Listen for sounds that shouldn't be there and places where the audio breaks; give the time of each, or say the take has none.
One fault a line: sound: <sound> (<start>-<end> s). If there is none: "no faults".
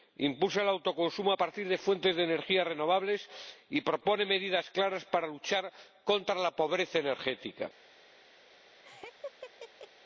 sound: laugh (8.8-9.9 s)